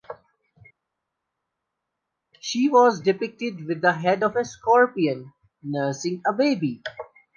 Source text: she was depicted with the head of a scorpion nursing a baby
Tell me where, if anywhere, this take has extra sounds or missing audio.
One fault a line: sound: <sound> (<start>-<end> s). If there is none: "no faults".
no faults